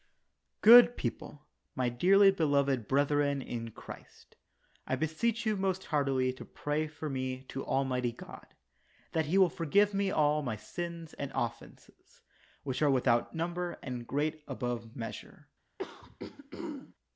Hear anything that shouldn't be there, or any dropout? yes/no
yes